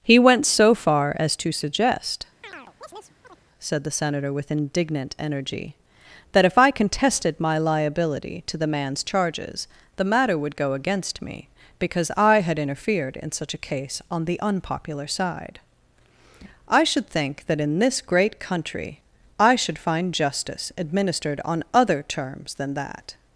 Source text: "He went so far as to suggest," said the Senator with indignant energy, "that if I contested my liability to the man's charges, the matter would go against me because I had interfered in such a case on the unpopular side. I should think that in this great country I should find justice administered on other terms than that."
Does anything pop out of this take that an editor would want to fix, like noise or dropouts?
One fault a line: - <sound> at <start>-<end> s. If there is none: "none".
- chirp at 2.4-3.4 s